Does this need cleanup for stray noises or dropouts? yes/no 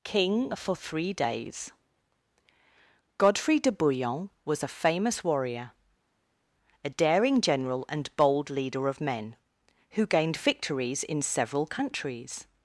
no